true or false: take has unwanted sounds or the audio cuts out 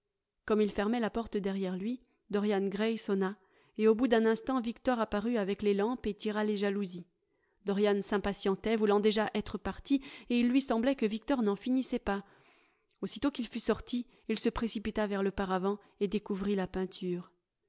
false